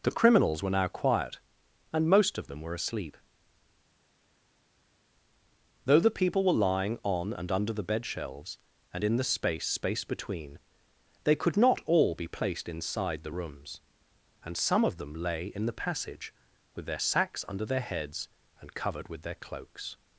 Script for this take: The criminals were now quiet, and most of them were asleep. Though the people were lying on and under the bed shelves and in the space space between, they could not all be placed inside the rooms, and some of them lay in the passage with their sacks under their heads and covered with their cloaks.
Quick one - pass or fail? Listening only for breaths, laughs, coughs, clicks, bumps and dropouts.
pass